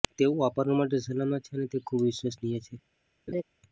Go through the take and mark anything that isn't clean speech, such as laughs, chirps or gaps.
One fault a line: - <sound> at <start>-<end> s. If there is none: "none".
- laugh at 3.3-3.4 s